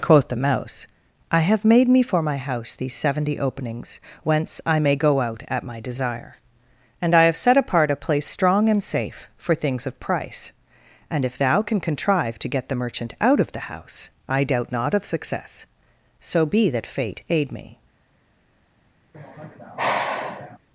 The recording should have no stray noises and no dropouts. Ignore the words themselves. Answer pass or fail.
fail